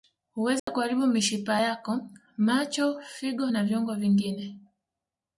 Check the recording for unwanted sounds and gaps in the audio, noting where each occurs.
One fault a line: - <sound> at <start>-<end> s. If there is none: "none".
- dropout at 0.6-0.7 s